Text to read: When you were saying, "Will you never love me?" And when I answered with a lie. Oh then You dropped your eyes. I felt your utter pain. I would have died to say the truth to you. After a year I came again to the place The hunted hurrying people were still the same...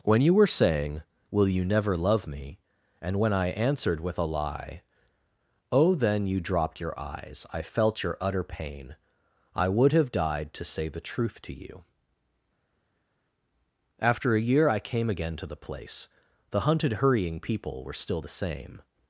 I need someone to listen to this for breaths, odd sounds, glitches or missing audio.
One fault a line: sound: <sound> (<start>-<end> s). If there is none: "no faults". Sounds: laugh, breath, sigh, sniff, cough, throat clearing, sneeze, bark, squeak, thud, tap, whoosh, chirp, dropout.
no faults